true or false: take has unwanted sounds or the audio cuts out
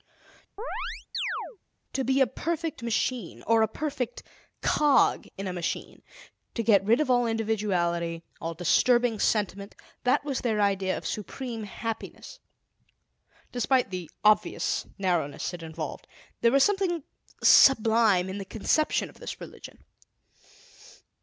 true